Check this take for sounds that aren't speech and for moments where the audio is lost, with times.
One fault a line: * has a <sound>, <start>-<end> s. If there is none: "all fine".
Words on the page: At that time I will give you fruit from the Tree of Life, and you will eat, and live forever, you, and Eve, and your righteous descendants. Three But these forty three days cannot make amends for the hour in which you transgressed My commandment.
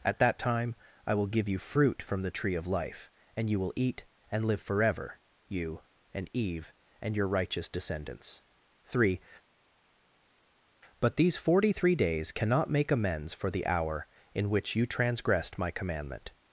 all fine